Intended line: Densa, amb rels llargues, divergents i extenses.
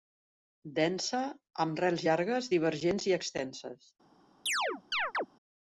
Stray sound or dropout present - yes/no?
yes